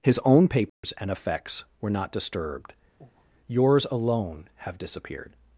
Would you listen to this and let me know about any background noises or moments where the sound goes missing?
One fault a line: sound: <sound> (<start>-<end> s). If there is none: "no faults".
sound: dropout (0.7-0.8 s)
sound: breath (3.0-3.3 s)